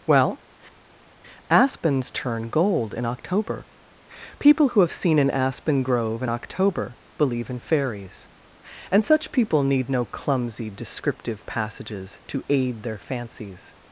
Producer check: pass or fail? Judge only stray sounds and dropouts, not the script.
pass